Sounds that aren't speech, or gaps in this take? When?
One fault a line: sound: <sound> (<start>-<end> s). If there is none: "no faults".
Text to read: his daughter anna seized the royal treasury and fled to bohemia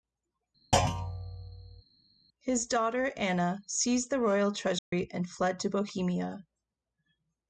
sound: thud (0.7-1.8 s)
sound: dropout (4.8-4.9 s)